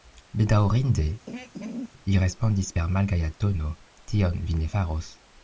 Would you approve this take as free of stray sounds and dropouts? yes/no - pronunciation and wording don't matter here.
no